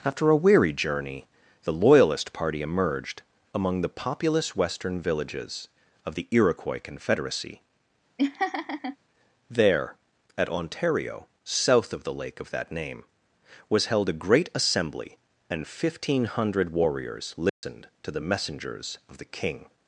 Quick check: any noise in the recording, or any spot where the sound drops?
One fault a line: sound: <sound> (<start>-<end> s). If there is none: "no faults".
sound: laugh (8.2-9.0 s)
sound: dropout (17.5-17.6 s)